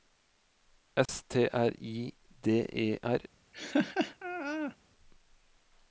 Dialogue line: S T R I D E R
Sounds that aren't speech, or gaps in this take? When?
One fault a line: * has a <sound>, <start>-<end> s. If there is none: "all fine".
* has a dropout, 1.1-1.1 s
* has a laugh, 3.5-4.8 s